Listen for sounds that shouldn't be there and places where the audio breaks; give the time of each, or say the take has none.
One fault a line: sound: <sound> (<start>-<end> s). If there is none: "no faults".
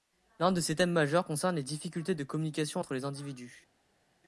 no faults